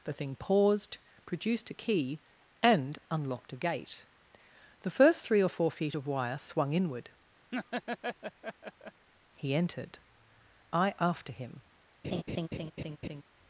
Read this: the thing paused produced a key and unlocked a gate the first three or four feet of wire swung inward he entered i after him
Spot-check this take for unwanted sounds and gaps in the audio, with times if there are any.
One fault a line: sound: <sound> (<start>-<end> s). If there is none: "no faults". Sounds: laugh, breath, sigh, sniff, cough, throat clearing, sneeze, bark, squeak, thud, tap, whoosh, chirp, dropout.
sound: laugh (7.5-9.1 s)
sound: laugh (12.0-13.2 s)